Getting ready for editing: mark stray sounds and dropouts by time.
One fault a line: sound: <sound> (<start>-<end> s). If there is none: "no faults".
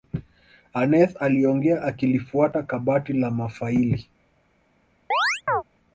sound: chirp (5.1-5.6 s)